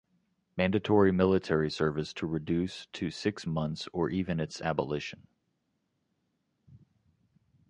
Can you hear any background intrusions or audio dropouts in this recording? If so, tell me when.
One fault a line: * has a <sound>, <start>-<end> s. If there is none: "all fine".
all fine